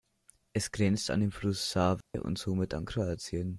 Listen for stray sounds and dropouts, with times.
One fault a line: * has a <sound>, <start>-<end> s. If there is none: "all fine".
* has a dropout, 2.0-2.1 s